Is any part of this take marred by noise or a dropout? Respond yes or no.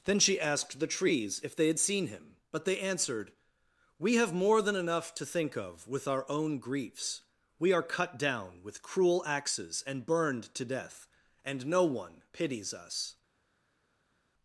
no